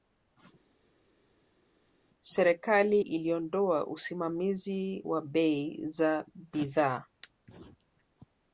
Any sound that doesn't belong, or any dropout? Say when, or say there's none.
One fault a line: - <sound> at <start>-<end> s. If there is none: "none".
none